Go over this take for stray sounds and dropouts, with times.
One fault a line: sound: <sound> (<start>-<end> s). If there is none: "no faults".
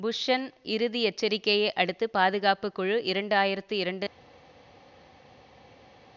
no faults